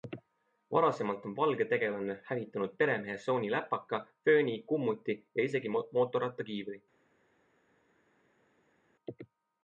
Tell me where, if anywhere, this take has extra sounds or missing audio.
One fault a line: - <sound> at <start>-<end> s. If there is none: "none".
none